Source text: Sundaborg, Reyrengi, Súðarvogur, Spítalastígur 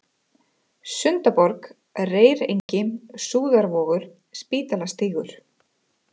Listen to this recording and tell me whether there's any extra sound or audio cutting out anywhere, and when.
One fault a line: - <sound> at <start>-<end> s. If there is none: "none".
- dropout at 2.6-2.7 s